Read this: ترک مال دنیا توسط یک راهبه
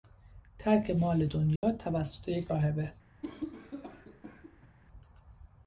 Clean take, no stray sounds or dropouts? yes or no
no